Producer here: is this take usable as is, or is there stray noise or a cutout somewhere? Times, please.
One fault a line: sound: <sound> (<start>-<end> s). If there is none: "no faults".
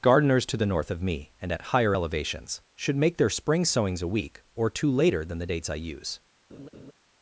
sound: laugh (6.5-6.9 s)